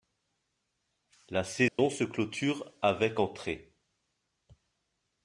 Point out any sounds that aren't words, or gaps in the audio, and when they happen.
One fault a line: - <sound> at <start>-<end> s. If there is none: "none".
- dropout at 1.7-1.8 s